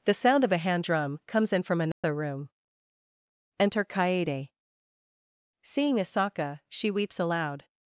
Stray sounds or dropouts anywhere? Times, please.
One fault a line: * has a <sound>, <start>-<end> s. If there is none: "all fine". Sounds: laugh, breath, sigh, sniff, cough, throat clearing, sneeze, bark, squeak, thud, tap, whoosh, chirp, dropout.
* has a dropout, 1.9-2.0 s